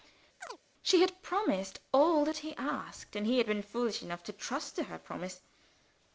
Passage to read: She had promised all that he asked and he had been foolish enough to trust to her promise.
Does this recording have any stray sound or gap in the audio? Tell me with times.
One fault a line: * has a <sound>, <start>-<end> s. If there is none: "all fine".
* has a chirp, 0.4-0.6 s